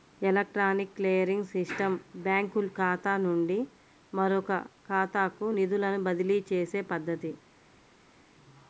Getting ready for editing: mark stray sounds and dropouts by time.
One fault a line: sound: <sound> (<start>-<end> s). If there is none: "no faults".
no faults